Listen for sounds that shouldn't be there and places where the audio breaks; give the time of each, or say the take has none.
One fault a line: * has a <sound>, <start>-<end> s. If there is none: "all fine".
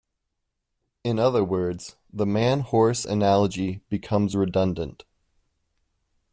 all fine